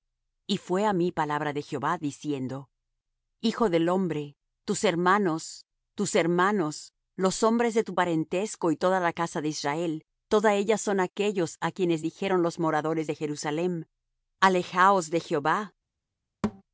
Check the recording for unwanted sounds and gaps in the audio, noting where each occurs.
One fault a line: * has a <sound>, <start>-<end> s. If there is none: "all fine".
* has a thud, 16.4-16.6 s